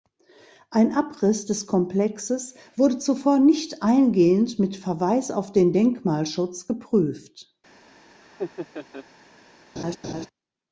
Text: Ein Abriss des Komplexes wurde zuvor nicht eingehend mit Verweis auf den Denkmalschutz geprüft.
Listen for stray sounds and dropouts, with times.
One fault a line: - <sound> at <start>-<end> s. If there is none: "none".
- laugh at 8.2-9.1 s
- laugh at 9.8-10.3 s